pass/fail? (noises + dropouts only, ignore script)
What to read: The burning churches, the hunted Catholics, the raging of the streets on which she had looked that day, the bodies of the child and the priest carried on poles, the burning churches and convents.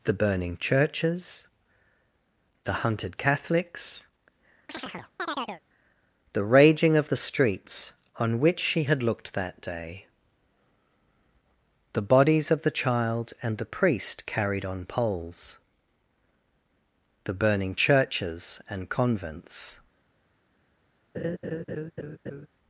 fail